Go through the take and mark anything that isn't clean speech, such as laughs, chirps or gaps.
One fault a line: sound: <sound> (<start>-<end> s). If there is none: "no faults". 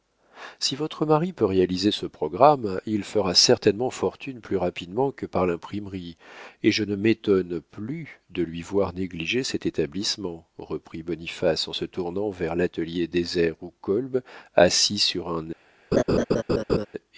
sound: laugh (15.9-16.9 s)